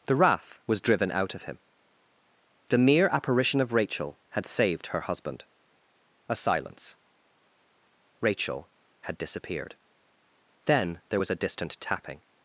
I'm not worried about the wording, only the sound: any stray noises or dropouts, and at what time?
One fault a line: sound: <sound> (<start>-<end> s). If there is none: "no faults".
no faults